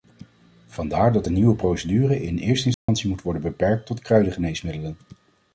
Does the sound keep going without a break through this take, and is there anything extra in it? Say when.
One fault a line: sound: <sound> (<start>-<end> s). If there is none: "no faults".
sound: dropout (2.7-2.9 s)